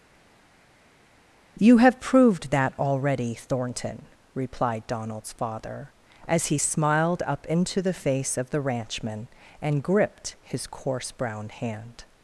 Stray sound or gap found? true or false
false